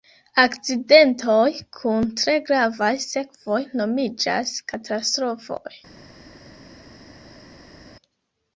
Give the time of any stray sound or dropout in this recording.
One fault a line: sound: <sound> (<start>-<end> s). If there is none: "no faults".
no faults